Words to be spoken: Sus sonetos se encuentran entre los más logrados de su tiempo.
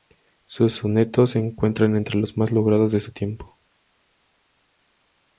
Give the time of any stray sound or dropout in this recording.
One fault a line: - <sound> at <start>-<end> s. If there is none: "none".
none